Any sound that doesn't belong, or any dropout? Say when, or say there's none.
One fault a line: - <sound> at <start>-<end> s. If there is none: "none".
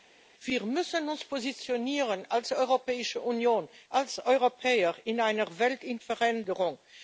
none